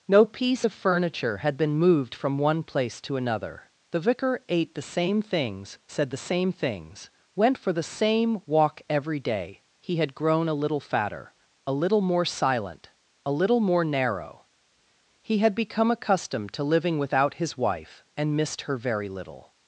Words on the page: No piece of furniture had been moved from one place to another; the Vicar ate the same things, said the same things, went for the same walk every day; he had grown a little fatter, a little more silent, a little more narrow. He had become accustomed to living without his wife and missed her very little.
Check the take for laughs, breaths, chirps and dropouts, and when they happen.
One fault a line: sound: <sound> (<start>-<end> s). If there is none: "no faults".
no faults